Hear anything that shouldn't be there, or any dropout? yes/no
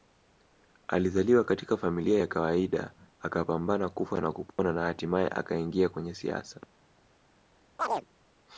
yes